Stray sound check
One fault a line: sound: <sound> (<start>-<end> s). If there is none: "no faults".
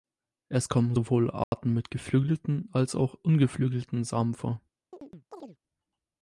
sound: dropout (1.4-1.5 s)
sound: chirp (4.9-5.6 s)